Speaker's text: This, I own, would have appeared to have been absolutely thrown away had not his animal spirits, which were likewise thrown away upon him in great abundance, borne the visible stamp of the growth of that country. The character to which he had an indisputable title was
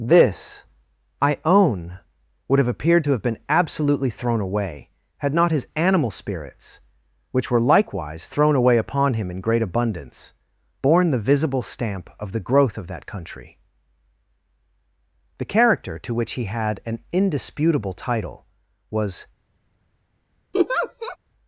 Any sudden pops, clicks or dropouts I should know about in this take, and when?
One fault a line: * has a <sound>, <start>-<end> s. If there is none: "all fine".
* has a laugh, 20.5-21.2 s